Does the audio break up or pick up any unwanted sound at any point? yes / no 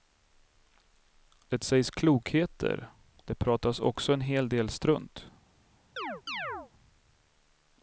yes